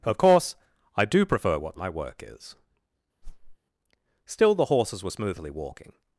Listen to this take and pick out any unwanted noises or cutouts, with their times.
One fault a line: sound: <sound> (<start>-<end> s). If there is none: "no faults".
sound: whoosh (3.2-3.6 s)